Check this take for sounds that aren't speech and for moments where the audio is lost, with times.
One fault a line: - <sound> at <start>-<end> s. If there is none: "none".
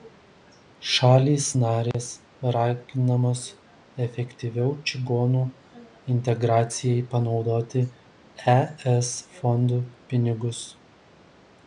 - dropout at 1.9-1.9 s